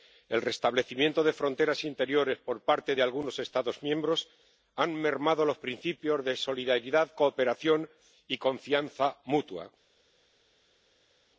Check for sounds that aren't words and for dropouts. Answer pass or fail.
pass